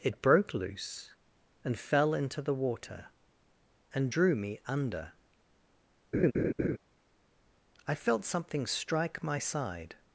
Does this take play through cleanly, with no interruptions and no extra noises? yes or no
no